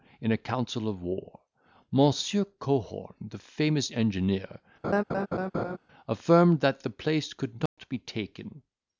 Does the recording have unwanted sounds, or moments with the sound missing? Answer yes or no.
yes